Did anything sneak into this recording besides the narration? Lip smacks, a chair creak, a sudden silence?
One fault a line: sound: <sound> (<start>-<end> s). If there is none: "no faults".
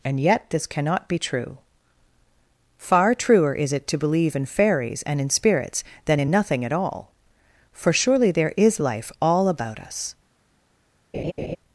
sound: laugh (11.1-11.6 s)